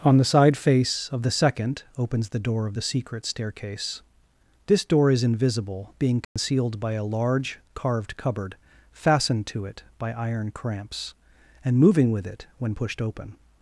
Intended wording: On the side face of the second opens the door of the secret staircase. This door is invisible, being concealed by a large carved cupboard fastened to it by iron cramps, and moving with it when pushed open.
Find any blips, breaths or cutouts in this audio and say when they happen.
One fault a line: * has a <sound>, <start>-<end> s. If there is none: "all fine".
* has a dropout, 6.2-6.4 s